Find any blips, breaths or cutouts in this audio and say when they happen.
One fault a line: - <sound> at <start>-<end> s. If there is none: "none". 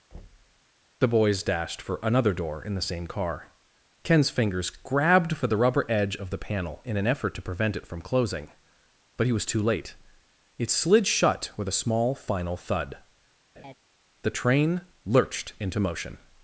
- thud at 0.1-0.6 s
- laugh at 13.6-13.7 s